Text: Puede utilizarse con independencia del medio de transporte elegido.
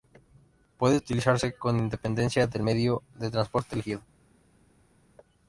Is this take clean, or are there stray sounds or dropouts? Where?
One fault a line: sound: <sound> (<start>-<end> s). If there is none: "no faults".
no faults